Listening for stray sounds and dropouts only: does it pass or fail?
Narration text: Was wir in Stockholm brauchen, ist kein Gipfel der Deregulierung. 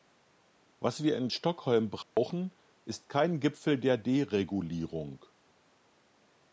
fail